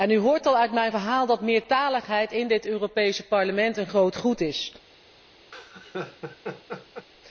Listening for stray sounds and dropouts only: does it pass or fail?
fail